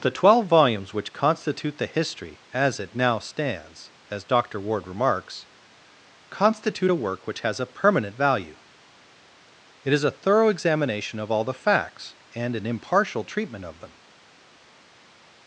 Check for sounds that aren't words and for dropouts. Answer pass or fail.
pass